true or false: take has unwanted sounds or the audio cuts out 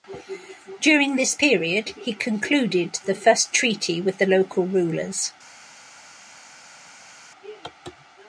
false